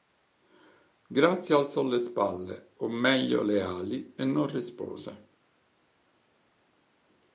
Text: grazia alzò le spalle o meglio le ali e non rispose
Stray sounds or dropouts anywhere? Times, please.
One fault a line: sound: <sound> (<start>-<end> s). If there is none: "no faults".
no faults